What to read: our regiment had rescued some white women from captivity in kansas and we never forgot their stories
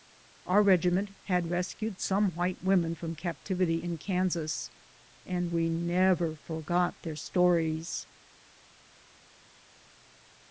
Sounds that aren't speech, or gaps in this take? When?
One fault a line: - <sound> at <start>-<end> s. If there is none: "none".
none